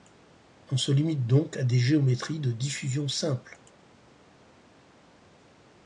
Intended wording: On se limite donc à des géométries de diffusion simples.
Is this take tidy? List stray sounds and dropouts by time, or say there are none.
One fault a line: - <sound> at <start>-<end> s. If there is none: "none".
none